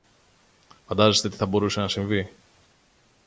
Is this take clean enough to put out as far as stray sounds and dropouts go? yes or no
yes